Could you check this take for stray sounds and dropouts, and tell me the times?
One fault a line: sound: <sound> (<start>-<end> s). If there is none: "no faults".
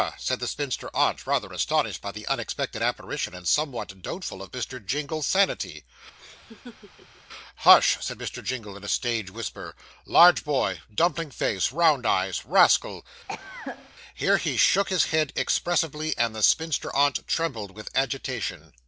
sound: laugh (6.2-7.2 s)
sound: cough (13.3-13.9 s)